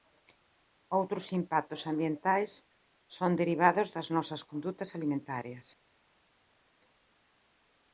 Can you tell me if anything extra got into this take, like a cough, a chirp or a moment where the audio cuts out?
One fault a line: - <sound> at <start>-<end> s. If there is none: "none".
none